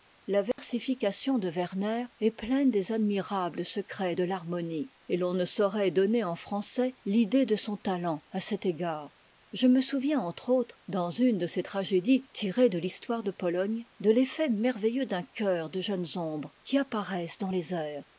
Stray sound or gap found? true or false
true